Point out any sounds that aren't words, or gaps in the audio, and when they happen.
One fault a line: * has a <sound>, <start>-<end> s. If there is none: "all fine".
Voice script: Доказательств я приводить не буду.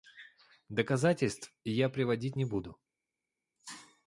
all fine